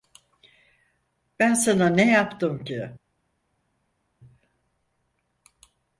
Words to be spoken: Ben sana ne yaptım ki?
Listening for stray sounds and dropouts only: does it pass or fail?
pass